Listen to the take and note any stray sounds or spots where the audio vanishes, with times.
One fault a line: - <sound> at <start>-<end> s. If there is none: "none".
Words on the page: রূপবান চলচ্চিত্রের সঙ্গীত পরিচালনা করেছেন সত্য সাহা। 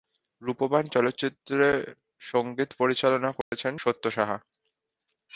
- dropout at 3.4-3.5 s